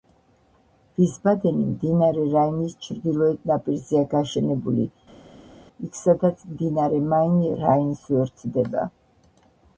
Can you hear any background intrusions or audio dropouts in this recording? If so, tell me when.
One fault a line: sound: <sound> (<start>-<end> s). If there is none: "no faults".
no faults